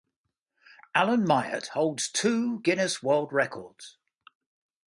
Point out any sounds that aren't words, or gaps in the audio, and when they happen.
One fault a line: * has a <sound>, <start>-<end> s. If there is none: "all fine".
all fine